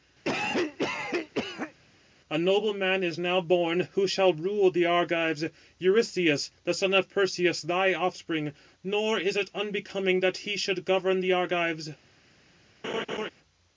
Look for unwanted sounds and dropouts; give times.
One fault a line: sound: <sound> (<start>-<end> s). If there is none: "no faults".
sound: cough (0.2-1.7 s)
sound: laugh (12.8-13.3 s)